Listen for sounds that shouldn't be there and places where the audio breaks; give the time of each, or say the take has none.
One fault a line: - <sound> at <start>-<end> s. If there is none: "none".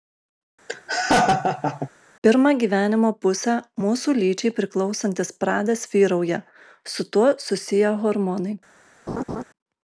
- laugh at 0.7-1.9 s
- laugh at 9.1-9.4 s